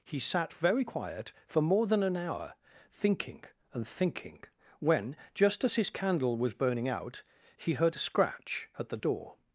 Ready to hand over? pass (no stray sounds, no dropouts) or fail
pass